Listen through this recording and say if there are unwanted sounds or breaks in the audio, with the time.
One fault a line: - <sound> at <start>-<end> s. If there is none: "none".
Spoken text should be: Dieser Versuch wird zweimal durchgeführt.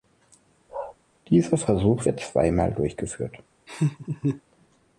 - bark at 0.7-1.0 s
- laugh at 3.7-4.4 s